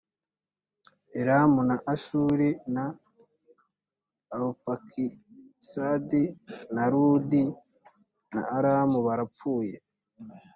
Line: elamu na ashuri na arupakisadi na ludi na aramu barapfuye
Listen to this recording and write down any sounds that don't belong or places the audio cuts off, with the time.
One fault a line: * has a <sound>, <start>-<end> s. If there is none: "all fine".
all fine